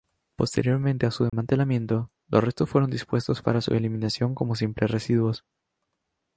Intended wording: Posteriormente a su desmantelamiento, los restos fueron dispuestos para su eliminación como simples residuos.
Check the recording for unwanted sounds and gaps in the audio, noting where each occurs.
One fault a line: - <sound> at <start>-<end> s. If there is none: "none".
- dropout at 1.3-1.3 s